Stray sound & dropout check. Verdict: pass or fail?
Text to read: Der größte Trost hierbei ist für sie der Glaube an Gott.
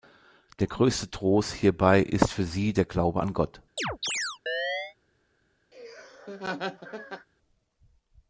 fail